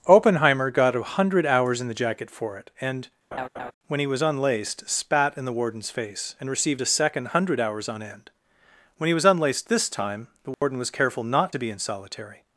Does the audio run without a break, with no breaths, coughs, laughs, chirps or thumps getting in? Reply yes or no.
no